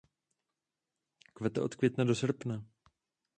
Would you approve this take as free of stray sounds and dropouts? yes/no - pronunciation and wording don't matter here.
yes